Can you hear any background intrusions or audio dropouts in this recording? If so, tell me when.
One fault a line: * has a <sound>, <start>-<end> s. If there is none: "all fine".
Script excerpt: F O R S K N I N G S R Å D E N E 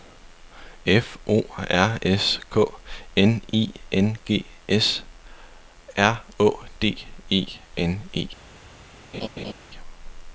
* has a laugh, 9.1-9.5 s